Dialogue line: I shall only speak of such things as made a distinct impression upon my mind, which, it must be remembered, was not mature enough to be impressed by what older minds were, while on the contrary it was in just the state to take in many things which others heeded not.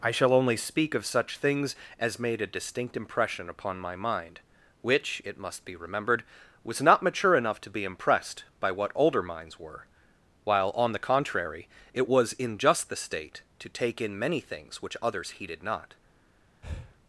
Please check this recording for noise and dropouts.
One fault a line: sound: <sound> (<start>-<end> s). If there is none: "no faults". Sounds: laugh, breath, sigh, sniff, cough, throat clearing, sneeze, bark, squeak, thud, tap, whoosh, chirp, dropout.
sound: breath (16.6-17.0 s)